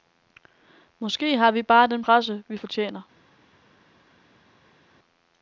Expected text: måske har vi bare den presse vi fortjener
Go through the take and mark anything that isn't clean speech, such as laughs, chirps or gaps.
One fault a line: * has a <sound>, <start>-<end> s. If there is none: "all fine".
all fine